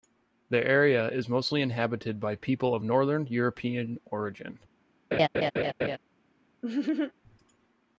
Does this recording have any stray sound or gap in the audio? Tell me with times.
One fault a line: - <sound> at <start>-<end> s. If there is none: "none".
- laugh at 5.1-6.0 s
- laugh at 6.6-7.1 s